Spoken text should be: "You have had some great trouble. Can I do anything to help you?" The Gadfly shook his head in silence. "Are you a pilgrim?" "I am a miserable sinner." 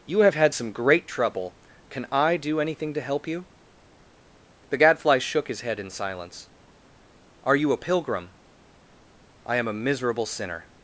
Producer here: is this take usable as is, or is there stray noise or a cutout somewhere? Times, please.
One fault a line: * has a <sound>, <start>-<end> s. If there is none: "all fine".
all fine